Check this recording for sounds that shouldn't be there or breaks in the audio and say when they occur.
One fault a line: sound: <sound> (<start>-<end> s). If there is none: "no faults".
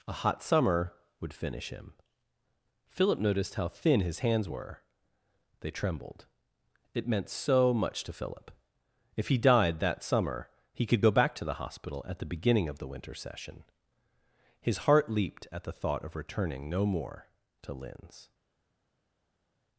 no faults